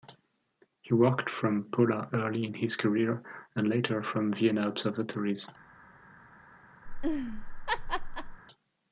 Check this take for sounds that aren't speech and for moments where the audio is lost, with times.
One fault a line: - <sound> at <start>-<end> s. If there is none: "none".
- laugh at 6.9-8.4 s